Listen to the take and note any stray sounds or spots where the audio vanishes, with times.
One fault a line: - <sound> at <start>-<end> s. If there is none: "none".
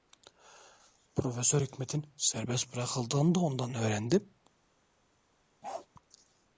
- bark at 5.6-5.9 s